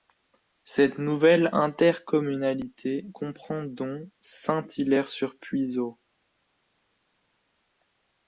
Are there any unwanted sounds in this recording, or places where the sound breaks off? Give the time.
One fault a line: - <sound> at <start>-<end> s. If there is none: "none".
none